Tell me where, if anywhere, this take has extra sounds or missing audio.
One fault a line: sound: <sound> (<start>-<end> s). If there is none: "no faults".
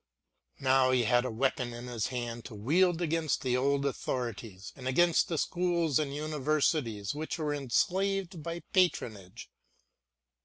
no faults